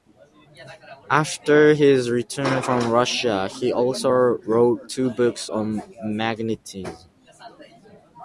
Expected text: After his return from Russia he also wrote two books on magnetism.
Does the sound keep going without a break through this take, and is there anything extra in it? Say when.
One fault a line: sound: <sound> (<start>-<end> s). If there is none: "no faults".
no faults